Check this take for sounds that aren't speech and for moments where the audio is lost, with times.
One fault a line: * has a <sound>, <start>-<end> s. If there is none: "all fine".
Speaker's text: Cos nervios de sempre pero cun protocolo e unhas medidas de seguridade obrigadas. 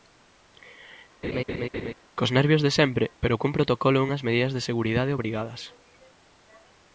* has a laugh, 1.2-1.9 s